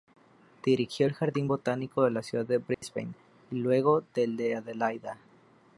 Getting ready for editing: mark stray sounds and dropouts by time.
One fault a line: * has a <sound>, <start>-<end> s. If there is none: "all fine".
* has a dropout, 2.7-2.8 s